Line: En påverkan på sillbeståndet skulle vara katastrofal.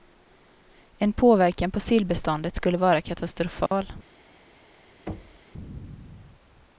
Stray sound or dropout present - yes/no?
yes